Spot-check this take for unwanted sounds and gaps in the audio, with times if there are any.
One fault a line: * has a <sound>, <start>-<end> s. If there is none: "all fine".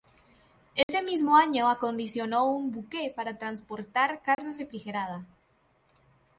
* has a dropout, 0.8-0.9 s
* has a dropout, 4.3-4.4 s